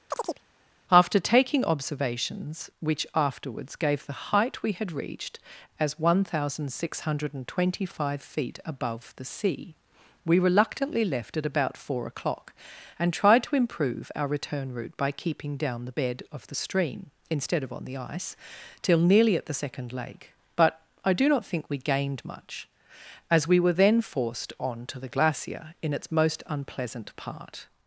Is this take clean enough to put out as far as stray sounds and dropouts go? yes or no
no